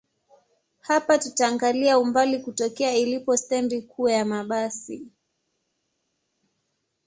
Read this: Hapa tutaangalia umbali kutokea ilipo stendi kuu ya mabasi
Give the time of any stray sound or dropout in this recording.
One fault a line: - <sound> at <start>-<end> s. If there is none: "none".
none